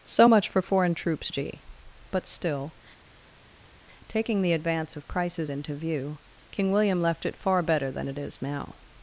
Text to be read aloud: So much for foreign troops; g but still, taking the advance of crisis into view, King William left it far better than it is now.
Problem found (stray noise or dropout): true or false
false